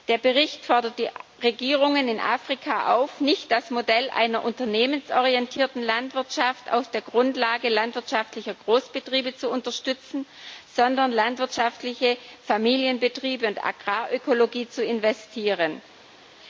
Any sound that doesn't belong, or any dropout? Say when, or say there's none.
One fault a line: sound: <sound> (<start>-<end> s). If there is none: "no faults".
no faults